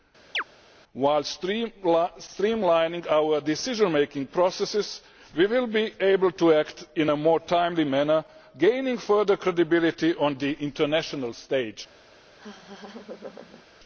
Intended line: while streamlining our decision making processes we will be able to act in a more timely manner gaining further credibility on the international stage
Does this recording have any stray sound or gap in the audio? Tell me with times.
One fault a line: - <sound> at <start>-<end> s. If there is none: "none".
- chirp at 0.3-0.4 s
- laugh at 12.4-13.6 s